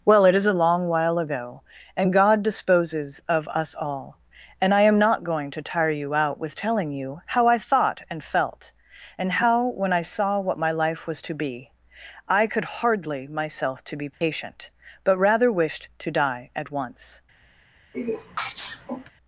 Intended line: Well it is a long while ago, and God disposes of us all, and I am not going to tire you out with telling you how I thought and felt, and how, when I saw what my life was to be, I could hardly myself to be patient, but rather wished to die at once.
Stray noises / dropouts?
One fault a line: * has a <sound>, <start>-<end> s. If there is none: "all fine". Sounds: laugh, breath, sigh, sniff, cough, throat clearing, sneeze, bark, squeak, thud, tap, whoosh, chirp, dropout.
* has a dropout, 14.1-14.2 s
* has a sneeze, 17.9-19.1 s